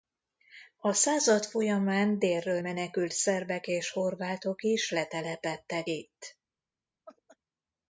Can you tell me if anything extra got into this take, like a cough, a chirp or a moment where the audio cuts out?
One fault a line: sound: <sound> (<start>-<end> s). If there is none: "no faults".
sound: laugh (7.1-7.4 s)